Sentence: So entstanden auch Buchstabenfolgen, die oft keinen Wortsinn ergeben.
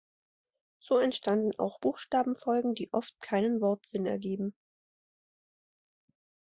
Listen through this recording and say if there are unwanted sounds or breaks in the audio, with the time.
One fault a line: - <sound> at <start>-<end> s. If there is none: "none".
none